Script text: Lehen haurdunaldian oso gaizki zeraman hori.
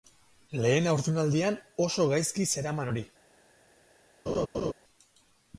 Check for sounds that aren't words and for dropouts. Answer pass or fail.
fail